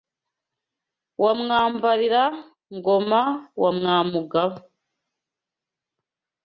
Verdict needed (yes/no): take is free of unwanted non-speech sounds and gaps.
yes